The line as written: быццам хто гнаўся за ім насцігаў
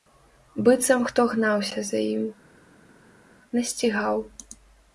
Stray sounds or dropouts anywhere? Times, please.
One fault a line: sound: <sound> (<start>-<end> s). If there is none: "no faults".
no faults